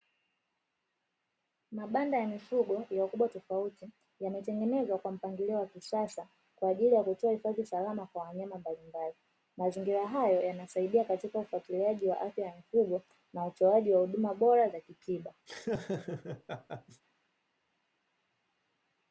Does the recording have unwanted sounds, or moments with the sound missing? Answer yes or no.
yes